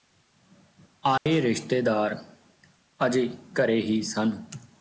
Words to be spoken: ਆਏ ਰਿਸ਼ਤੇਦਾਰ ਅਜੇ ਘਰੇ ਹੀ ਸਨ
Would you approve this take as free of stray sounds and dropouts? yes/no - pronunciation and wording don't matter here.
no